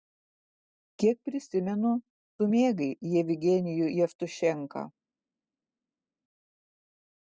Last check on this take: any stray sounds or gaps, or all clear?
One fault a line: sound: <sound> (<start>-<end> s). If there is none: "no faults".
no faults